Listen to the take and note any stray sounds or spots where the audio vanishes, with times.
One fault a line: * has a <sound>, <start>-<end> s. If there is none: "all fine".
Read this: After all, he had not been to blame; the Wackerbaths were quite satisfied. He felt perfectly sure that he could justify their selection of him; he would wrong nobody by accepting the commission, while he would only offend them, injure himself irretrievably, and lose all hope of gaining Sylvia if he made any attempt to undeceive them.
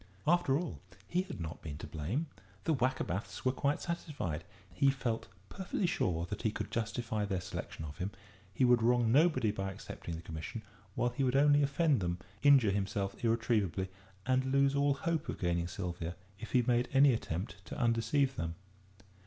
all fine